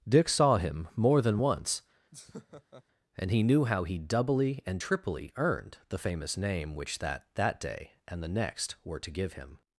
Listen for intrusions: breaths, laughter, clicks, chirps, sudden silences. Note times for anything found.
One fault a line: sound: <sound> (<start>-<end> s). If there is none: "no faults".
sound: laugh (2.1-2.8 s)